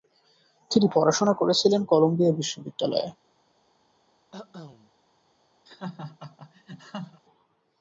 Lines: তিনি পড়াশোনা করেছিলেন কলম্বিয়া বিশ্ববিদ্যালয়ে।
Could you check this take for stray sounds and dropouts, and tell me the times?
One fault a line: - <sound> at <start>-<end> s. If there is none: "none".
- cough at 4.3-4.9 s
- laugh at 5.7-7.2 s